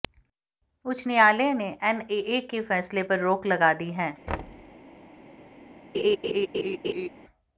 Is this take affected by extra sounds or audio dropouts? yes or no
yes